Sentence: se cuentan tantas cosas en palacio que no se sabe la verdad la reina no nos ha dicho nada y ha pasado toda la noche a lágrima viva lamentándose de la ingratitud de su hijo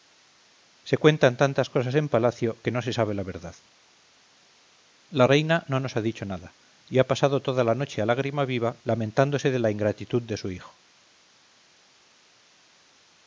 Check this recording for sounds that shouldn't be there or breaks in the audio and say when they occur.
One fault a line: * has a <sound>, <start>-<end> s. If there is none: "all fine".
all fine